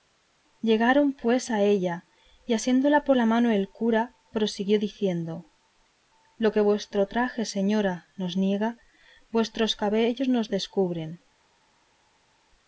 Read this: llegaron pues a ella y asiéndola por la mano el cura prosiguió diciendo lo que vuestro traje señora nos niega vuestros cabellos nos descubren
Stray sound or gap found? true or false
false